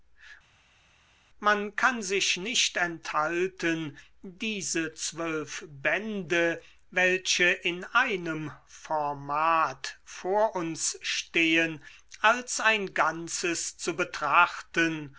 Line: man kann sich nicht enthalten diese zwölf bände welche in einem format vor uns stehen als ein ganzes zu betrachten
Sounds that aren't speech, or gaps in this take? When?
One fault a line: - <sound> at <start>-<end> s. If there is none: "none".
none